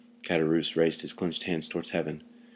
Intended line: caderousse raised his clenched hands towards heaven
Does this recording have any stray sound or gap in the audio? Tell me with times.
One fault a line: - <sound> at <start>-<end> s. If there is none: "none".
none